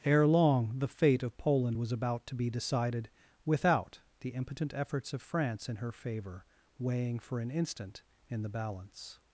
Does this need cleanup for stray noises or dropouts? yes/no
no